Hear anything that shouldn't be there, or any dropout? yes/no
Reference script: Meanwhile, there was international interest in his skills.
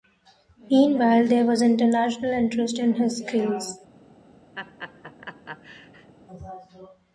yes